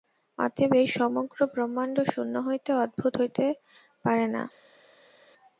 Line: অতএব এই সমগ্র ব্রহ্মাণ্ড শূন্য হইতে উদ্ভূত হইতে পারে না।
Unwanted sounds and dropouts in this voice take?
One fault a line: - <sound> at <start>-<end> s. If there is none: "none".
none